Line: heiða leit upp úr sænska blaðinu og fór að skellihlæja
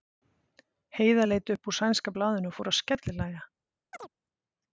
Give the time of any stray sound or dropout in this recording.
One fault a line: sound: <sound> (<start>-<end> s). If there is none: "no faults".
sound: chirp (3.9-4.1 s)